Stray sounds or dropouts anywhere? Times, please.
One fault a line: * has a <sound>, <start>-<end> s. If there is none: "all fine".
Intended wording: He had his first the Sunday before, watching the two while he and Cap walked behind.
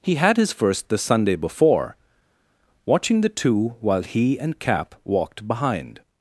all fine